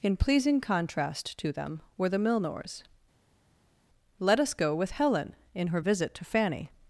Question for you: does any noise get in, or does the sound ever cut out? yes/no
no